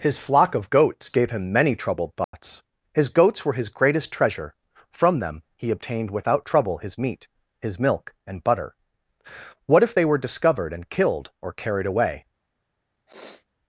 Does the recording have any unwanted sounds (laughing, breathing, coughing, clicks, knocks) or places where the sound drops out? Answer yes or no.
yes